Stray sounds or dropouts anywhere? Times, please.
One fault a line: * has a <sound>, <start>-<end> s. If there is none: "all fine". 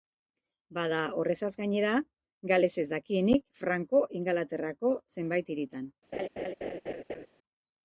* has a laugh, 6.1-7.3 s